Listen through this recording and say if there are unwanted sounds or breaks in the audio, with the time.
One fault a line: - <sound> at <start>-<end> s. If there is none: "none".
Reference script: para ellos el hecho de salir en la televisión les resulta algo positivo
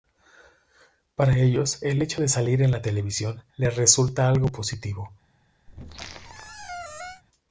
- squeak at 5.7-7.2 s